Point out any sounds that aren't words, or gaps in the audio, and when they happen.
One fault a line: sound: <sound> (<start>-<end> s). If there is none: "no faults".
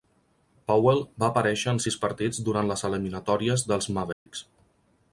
sound: dropout (4.1-4.3 s)